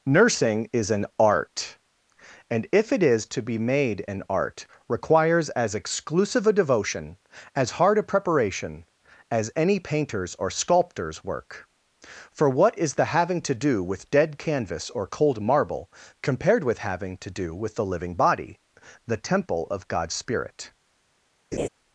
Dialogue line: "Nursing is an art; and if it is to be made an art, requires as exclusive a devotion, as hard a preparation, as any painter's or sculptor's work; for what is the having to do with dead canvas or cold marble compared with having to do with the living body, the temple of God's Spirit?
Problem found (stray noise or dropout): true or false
true